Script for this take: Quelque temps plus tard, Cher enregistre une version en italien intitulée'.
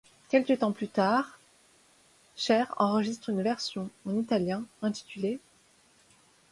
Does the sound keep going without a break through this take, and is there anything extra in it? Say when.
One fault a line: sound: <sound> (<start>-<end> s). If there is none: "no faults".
no faults